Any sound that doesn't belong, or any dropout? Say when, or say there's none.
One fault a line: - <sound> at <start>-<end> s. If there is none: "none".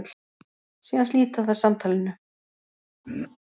- throat clearing at 3.0-3.4 s